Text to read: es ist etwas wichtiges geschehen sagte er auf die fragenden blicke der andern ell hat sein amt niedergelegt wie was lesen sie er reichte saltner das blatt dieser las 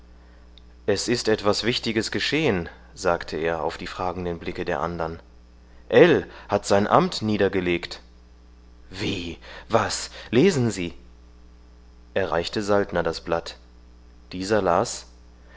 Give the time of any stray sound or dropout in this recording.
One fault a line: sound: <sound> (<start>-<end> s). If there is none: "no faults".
no faults